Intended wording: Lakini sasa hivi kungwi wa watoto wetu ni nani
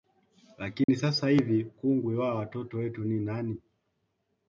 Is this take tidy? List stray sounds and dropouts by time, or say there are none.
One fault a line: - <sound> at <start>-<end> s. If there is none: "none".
- dropout at 0.8-0.9 s